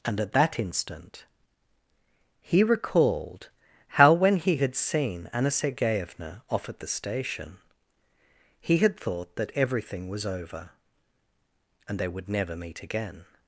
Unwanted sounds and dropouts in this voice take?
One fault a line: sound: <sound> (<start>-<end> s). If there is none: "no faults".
no faults